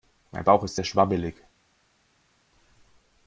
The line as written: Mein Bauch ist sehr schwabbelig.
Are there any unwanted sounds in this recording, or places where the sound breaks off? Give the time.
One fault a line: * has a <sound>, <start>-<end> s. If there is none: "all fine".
all fine